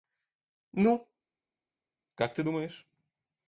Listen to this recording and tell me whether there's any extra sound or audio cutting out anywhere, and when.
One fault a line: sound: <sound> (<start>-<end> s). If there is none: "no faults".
no faults